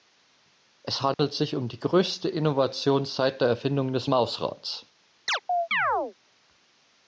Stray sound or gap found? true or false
true